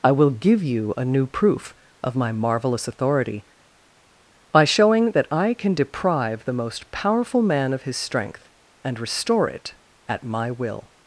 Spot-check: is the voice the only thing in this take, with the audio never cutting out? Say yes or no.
yes